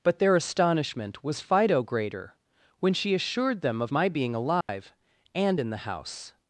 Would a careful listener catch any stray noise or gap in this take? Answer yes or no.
yes